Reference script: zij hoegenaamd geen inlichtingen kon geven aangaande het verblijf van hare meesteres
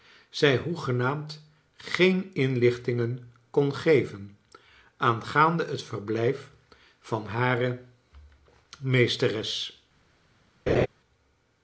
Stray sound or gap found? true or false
true